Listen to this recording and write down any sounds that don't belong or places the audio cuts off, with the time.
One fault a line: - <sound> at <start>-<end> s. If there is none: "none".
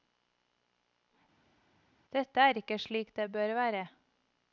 none